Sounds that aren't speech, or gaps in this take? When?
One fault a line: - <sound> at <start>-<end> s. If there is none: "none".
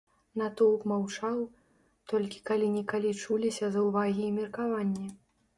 none